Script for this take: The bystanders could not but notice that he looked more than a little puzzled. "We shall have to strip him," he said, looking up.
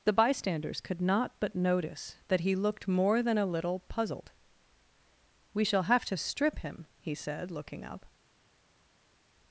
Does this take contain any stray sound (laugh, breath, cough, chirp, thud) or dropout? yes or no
no